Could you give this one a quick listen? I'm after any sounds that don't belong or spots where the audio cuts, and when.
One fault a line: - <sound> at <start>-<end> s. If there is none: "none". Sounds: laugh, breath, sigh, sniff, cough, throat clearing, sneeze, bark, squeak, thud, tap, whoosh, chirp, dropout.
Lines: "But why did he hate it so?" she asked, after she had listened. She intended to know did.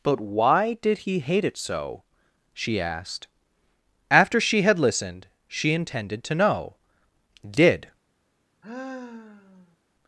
- sigh at 8.6-9.8 s